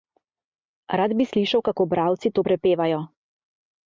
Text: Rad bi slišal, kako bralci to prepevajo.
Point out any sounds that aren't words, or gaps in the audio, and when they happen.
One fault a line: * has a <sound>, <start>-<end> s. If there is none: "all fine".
all fine